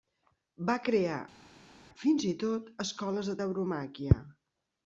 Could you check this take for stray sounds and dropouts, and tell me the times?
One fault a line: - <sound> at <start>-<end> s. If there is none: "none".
none